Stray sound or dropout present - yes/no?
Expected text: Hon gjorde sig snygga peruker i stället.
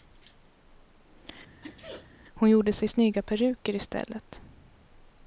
yes